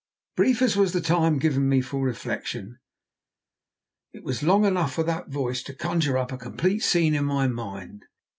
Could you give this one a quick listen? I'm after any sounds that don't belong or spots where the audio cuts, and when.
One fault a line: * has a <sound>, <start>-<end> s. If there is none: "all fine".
all fine